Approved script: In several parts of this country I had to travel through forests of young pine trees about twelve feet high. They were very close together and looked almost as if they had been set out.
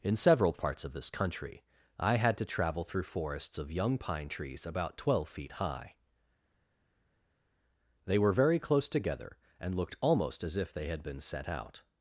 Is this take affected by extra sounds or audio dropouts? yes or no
no